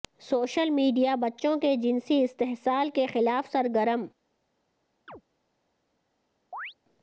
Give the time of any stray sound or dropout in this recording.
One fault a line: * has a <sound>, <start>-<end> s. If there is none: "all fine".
* has a chirp, 5.1-5.2 s
* has a chirp, 6.5-6.7 s